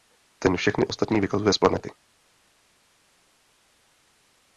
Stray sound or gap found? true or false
false